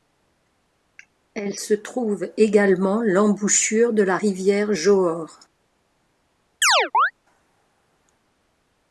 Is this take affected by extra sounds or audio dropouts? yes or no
yes